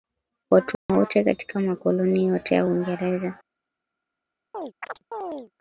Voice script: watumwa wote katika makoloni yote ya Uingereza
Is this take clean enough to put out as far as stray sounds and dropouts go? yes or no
no